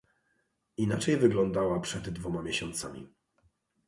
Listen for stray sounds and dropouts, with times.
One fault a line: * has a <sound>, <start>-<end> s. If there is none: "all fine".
all fine